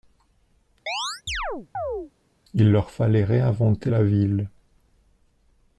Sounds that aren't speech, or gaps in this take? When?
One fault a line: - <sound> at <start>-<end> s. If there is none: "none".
- chirp at 0.9-2.1 s